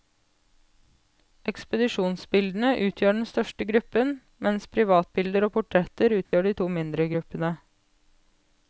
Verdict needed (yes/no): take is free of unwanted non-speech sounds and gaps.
no